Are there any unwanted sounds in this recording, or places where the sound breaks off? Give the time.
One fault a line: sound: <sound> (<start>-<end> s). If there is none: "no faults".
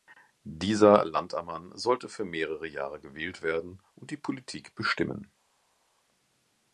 no faults